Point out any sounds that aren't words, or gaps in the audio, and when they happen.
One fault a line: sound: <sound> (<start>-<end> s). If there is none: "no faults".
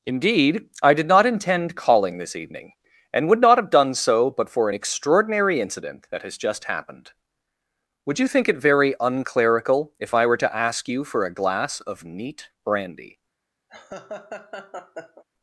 sound: laugh (13.7-15.2 s)